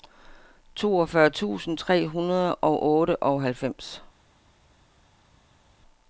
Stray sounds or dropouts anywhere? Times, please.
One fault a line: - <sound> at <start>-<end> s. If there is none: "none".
none